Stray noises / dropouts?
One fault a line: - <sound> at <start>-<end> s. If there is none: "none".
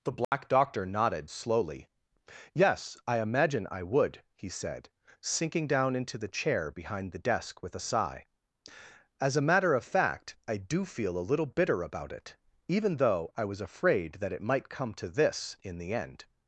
- dropout at 0.2-0.3 s